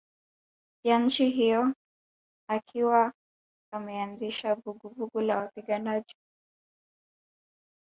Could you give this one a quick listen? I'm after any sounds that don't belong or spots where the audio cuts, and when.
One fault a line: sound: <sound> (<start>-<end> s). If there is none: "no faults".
no faults